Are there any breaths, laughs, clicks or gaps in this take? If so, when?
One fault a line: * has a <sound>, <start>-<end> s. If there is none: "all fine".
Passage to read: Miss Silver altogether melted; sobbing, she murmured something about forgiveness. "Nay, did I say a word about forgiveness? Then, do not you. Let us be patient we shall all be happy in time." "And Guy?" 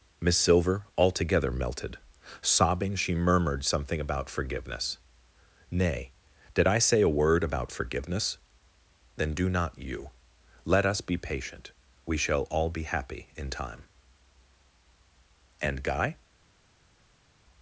all fine